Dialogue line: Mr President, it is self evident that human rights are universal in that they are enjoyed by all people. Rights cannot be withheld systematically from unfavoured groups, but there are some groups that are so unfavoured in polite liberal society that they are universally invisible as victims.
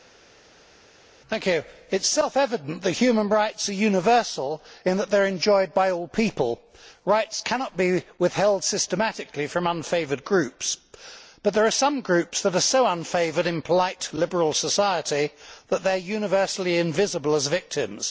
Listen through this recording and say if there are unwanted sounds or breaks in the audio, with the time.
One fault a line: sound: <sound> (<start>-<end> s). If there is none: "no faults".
no faults